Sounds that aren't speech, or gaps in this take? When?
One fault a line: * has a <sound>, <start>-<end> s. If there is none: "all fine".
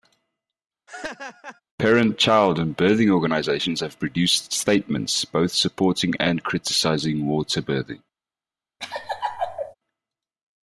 * has a laugh, 0.9-1.6 s
* has a laugh, 8.8-9.7 s